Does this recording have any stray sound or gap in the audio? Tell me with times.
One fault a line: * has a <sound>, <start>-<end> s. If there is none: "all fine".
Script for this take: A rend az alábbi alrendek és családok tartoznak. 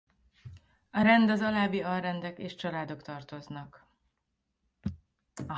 all fine